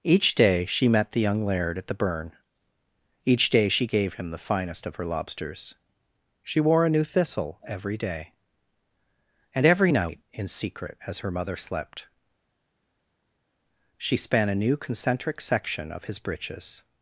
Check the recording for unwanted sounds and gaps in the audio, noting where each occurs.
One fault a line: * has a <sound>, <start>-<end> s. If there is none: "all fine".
all fine